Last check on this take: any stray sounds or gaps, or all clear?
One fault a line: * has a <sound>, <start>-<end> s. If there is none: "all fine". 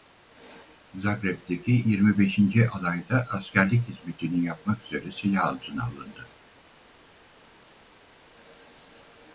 all fine